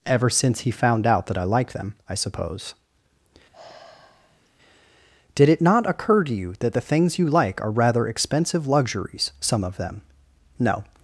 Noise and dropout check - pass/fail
fail